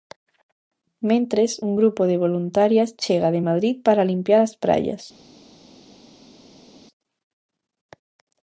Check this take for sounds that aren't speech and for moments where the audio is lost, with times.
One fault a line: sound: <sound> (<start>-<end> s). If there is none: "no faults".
no faults